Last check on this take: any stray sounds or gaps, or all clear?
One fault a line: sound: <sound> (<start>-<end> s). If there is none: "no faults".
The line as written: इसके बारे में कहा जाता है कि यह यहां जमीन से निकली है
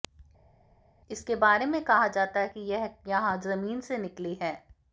no faults